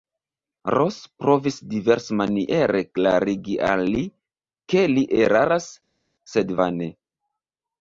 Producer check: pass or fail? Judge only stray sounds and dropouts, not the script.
pass